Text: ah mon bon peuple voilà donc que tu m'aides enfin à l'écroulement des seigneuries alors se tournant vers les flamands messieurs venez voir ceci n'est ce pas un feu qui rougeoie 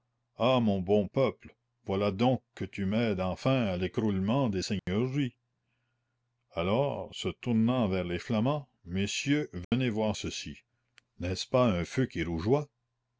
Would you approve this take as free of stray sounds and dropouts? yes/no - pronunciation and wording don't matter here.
no